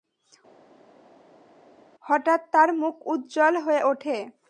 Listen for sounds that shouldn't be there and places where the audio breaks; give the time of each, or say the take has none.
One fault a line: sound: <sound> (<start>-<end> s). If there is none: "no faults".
no faults